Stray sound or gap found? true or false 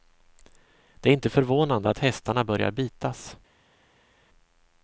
false